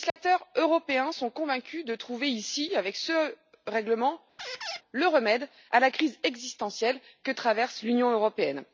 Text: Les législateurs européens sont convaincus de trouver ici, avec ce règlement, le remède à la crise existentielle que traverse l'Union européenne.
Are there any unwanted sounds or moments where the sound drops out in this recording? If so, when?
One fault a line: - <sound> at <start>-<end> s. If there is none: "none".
- dropout at 0.1-0.2 s
- squeak at 4.4-4.8 s